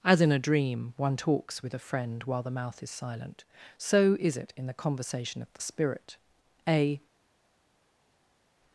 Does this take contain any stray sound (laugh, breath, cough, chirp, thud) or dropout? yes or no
no